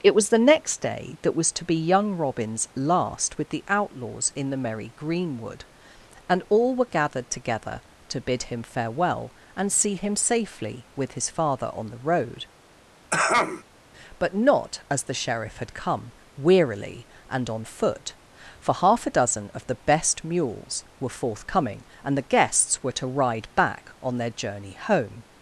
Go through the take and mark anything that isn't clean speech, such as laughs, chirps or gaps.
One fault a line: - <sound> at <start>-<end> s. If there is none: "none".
- throat clearing at 13.1-13.6 s